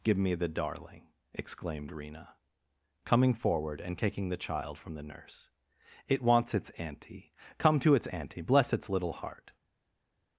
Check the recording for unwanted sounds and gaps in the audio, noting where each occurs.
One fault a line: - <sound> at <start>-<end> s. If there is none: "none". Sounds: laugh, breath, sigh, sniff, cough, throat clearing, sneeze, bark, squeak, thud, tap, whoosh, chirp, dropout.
none